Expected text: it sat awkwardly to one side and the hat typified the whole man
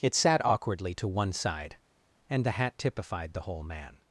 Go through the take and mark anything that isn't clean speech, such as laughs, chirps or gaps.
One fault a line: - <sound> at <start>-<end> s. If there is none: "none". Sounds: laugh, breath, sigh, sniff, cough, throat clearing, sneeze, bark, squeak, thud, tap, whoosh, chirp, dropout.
none